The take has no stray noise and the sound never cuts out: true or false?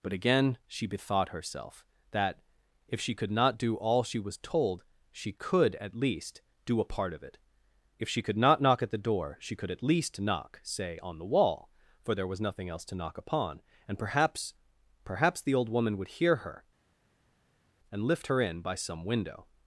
true